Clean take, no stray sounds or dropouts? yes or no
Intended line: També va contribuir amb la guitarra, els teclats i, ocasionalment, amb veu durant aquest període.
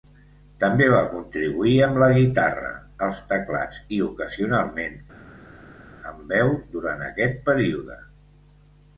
yes